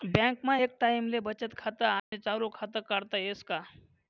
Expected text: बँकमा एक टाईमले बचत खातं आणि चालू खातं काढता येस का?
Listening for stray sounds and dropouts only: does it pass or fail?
fail